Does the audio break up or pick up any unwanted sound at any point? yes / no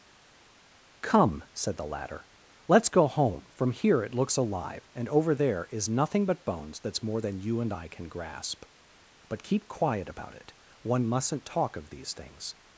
no